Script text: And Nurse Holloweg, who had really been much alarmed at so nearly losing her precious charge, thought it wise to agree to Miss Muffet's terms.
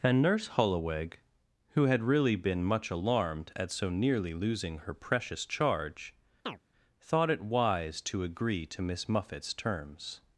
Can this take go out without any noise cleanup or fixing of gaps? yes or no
no